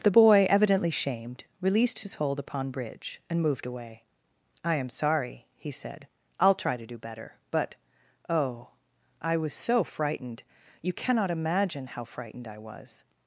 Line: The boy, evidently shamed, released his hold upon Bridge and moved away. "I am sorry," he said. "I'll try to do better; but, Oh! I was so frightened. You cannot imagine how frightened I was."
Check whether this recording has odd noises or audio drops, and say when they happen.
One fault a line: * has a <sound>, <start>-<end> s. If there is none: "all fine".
all fine